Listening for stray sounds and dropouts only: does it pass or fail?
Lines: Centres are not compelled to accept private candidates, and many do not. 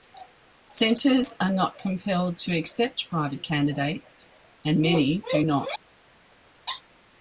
pass